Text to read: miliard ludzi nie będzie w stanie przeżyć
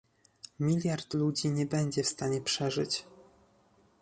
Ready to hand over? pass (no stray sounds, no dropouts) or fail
pass